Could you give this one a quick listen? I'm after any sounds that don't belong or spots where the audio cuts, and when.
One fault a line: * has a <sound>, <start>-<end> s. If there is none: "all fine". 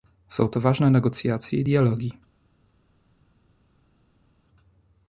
all fine